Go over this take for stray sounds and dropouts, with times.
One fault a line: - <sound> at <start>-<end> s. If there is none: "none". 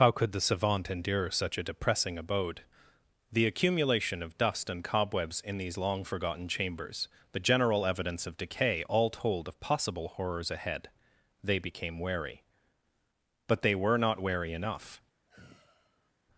- sigh at 15.3-16.1 s